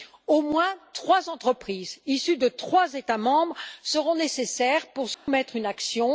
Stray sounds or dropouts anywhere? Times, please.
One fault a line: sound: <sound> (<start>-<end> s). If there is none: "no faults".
sound: dropout (5.1-5.3 s)